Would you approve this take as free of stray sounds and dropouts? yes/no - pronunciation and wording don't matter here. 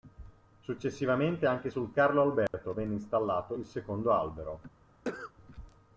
no